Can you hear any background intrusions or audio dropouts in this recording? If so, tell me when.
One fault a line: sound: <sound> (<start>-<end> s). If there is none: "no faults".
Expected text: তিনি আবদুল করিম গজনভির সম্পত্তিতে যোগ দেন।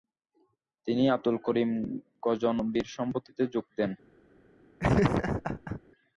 sound: laugh (4.8-5.8 s)